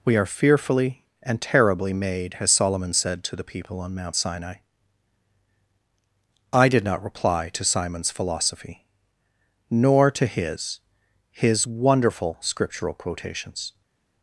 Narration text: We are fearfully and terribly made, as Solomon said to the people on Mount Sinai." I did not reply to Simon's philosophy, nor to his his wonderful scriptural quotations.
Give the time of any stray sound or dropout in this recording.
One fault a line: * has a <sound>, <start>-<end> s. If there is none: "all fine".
all fine